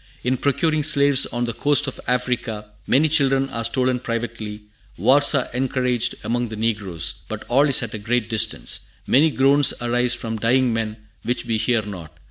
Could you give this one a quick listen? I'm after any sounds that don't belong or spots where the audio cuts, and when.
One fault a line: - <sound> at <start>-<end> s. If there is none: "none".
none